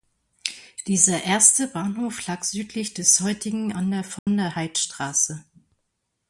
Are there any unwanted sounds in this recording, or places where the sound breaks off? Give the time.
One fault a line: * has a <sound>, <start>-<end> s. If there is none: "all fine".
* has a dropout, 4.2-4.3 s